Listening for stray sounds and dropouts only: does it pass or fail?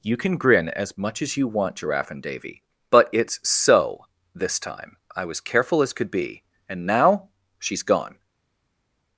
pass